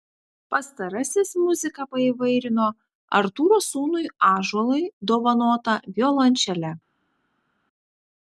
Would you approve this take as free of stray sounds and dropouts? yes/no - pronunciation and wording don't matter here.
yes